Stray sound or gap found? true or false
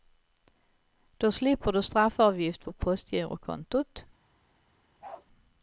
true